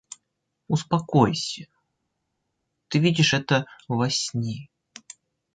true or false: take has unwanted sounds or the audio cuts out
false